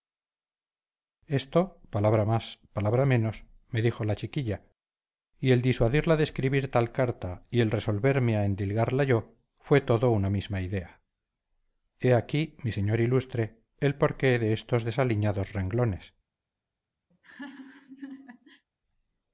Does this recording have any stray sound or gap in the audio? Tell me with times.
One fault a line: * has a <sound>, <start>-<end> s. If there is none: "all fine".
* has a laugh, 17.1-18.7 s